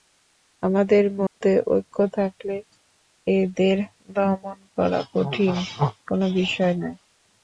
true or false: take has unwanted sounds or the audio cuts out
true